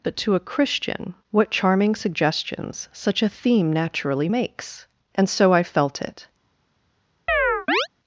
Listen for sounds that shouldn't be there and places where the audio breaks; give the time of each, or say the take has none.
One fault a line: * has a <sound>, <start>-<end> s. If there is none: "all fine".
* has a chirp, 7.3-7.9 s